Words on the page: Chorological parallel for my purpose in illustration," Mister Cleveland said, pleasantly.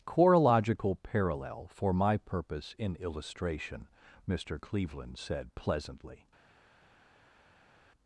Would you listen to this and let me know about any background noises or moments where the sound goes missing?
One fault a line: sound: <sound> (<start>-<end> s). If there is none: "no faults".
no faults